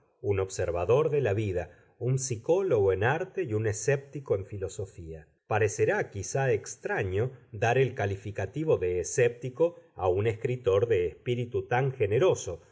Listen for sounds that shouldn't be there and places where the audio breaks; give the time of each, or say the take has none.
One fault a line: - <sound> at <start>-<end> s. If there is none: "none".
none